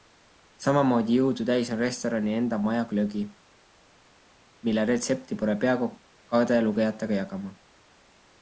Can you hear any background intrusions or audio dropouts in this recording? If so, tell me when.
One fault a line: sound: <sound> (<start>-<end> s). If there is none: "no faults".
no faults